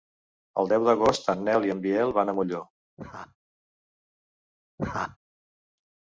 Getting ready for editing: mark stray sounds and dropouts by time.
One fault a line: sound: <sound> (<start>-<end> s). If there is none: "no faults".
sound: laugh (3.0-3.4 s)
sound: laugh (4.8-5.2 s)